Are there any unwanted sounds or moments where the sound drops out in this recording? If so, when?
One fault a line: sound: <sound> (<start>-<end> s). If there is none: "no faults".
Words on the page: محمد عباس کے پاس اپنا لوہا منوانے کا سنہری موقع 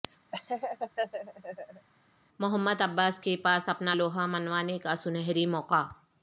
sound: laugh (0.3-1.9 s)